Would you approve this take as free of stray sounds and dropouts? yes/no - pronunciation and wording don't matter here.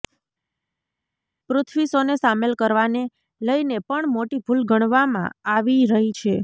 yes